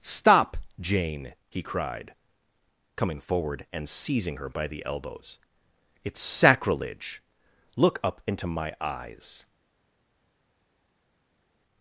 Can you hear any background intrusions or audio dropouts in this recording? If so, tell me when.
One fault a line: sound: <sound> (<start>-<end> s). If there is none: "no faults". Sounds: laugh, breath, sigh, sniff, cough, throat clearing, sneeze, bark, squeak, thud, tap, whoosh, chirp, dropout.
no faults